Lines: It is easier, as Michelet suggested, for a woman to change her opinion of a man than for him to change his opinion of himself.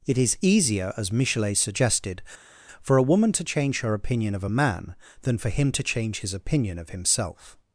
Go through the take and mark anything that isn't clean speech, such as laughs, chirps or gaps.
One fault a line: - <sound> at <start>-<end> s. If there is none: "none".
none